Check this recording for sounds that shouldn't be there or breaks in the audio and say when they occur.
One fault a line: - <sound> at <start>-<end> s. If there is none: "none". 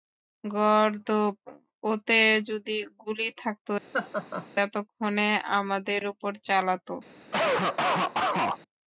- laugh at 3.9-4.5 s
- cough at 7.3-8.6 s